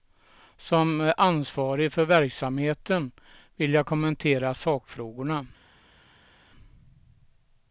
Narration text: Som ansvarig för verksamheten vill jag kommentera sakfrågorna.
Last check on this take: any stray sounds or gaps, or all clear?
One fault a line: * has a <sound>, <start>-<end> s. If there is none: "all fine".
all fine